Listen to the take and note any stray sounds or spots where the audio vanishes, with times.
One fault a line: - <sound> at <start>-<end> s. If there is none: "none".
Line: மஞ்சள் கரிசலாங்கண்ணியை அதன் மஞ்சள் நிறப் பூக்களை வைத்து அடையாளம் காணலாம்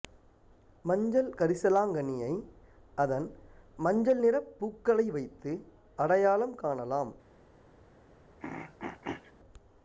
- throat clearing at 8.4-9.3 s